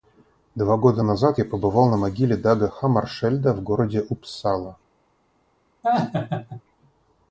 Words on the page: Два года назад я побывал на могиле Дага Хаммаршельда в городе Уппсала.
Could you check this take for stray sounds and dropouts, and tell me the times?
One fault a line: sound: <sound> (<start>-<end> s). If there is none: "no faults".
sound: laugh (5.8-6.6 s)